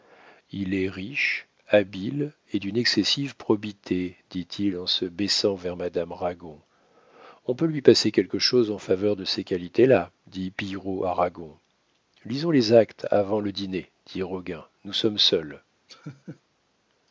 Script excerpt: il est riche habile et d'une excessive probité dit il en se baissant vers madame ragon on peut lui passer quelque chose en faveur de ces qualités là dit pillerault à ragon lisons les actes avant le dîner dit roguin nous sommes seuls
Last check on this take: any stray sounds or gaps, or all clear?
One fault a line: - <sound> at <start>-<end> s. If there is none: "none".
- laugh at 15.9-16.4 s